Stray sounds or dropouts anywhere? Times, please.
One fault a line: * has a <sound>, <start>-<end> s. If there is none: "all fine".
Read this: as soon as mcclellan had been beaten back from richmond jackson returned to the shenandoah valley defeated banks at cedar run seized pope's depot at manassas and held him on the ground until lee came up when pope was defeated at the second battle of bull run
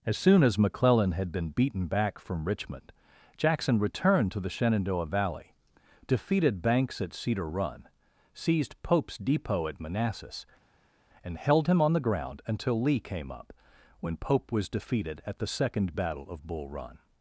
all fine